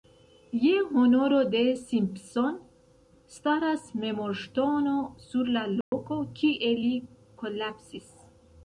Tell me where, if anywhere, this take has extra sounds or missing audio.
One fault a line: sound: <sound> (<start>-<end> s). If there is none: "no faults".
sound: dropout (5.8-5.9 s)